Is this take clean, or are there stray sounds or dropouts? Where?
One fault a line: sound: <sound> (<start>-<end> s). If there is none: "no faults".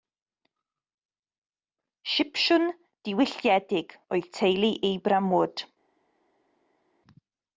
no faults